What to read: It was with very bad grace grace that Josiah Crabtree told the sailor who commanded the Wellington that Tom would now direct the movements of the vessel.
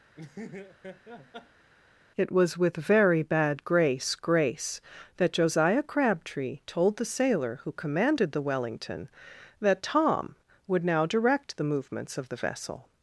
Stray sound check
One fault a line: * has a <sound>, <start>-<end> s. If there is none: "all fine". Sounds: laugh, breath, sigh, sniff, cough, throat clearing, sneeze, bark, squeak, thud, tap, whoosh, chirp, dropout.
* has a laugh, 0.2-1.7 s